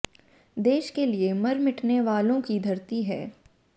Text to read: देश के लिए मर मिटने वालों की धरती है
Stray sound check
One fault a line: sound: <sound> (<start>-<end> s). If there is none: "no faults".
no faults